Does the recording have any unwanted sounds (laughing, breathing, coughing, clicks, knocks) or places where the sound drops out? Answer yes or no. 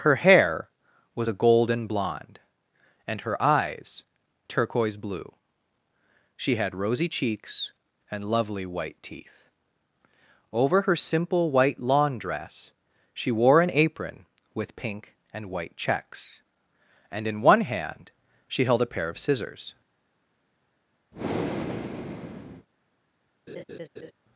yes